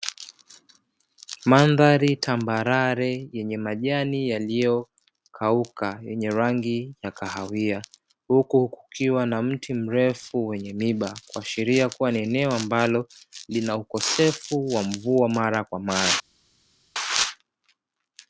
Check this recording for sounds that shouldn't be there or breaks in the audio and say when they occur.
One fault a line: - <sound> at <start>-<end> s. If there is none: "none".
none